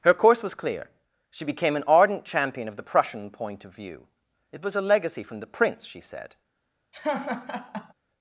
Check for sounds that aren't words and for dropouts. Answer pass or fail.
fail